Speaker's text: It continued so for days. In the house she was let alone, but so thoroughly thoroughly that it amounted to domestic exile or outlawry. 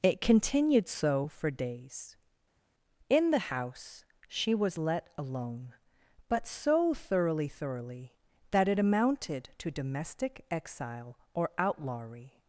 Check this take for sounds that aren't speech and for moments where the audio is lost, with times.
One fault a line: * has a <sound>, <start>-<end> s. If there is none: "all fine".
all fine